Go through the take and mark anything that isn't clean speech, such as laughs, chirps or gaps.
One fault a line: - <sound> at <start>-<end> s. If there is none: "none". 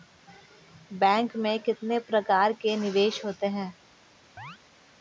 - chirp at 4.4-4.6 s